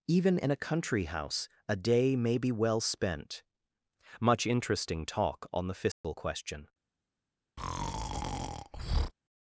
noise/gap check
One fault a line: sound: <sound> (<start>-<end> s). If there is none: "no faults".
sound: dropout (5.9-6.0 s)
sound: breath (7.6-9.1 s)